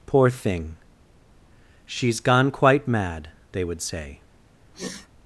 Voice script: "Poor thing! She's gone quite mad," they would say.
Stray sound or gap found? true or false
true